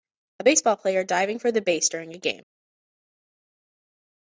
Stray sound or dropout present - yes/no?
no